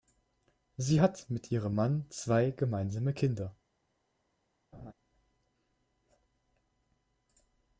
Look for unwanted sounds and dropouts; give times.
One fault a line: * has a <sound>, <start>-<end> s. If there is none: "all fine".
* has a laugh, 4.7-4.9 s